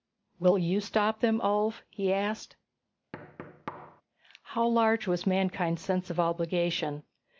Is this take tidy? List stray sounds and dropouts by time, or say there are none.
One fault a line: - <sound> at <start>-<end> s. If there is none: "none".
- thud at 3.1-4.0 s